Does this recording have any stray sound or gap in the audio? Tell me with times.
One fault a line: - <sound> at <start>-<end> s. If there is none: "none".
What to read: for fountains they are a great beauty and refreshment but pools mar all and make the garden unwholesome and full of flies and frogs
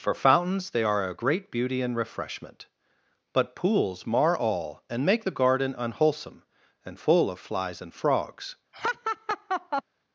- laugh at 8.7-9.8 s